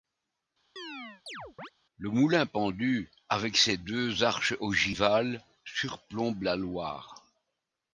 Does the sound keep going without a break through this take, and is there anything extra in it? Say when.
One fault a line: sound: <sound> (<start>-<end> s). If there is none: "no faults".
sound: chirp (0.8-1.7 s)